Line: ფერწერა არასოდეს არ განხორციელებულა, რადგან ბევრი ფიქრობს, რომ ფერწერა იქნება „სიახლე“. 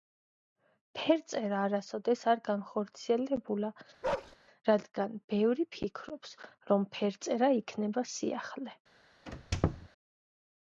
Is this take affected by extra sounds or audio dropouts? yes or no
yes